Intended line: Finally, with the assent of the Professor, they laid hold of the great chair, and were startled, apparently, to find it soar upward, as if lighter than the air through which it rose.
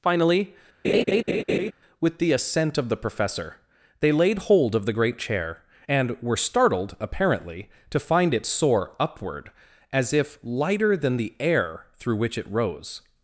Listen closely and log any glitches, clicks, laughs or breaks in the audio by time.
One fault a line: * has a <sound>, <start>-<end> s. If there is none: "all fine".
* has a laugh, 0.8-1.7 s